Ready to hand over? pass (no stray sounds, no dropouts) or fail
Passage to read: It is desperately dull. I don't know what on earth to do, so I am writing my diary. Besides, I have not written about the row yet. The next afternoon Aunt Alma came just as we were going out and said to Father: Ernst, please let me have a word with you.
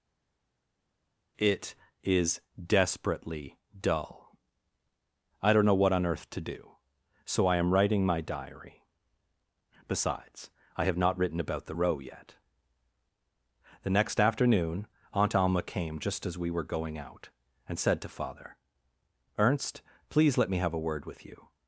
pass